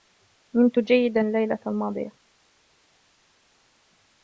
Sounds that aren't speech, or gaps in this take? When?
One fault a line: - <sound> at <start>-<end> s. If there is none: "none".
none